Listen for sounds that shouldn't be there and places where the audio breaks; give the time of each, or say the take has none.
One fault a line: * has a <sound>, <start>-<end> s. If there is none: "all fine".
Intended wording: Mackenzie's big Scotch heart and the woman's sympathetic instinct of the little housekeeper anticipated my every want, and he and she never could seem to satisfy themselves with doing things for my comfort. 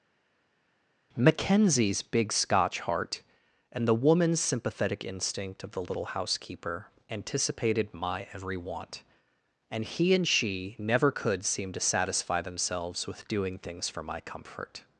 all fine